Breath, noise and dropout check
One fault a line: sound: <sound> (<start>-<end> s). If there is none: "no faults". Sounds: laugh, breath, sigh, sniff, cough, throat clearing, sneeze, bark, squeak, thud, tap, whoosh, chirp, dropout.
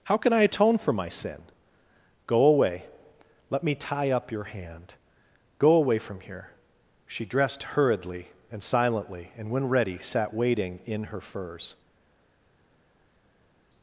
no faults